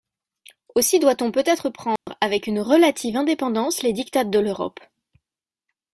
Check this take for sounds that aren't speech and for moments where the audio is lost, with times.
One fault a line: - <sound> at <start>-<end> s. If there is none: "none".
- dropout at 2.0-2.1 s